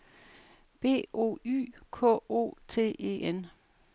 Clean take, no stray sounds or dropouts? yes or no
yes